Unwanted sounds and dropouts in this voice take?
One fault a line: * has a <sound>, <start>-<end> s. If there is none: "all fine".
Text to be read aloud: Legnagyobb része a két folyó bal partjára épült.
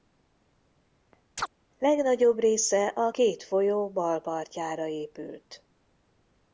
* has a chirp, 1.4-1.5 s